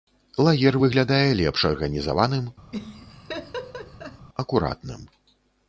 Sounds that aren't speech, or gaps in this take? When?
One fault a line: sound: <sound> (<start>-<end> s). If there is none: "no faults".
sound: laugh (2.7-4.3 s)